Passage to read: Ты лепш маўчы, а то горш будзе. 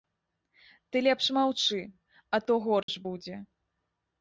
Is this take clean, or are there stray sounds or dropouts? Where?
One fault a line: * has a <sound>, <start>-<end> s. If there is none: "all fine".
* has a dropout, 2.8-2.9 s